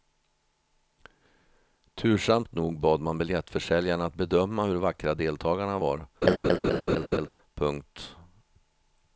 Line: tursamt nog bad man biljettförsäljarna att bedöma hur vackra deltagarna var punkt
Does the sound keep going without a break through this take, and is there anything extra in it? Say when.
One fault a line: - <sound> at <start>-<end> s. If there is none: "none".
- laugh at 6.2-7.3 s